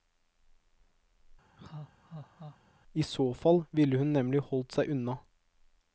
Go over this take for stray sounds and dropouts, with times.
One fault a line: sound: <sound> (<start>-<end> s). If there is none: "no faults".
sound: laugh (1.6-2.6 s)